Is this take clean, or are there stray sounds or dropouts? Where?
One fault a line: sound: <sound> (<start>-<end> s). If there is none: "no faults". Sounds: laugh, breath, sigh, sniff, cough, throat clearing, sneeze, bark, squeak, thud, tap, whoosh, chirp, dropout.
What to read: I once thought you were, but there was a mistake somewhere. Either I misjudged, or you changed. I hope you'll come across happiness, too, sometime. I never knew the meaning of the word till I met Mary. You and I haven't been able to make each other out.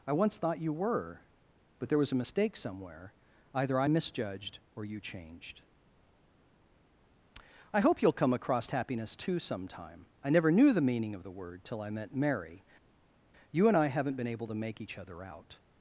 no faults